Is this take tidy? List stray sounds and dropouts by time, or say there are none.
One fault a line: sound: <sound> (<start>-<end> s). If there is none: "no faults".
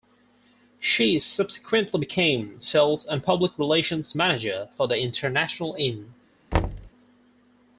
sound: thud (6.5-6.9 s)